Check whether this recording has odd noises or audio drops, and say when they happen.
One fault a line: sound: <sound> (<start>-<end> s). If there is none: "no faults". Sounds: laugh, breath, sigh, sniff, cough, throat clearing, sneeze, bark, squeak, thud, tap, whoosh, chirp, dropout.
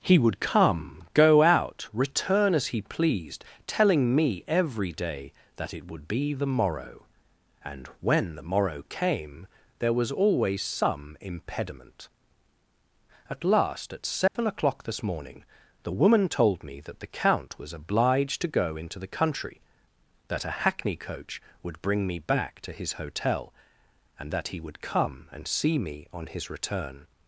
sound: dropout (14.3-14.4 s)